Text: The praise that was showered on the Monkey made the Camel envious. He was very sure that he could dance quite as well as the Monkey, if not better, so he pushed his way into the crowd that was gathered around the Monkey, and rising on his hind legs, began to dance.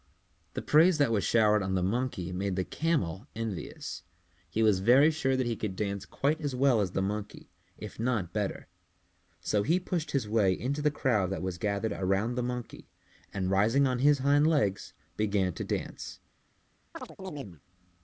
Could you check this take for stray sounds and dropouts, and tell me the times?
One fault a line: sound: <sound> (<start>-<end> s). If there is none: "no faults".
sound: chirp (16.9-17.6 s)